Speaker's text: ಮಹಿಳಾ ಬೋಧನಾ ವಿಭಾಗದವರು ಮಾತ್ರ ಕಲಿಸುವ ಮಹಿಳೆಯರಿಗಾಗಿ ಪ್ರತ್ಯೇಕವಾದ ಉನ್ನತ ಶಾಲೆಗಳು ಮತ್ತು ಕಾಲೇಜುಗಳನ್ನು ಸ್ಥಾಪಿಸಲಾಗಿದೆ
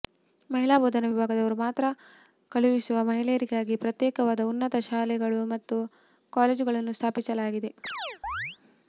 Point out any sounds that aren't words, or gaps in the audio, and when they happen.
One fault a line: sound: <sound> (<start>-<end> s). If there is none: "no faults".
sound: chirp (7.8-8.6 s)